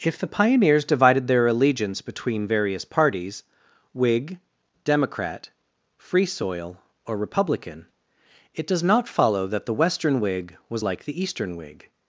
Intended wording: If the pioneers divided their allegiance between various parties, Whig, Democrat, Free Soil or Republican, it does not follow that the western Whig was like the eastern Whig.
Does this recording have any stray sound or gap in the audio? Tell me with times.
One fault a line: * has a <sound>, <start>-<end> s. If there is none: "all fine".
all fine